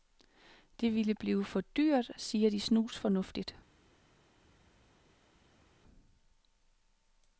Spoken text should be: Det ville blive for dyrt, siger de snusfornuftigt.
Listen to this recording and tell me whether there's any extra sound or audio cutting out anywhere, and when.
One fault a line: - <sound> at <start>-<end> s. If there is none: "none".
none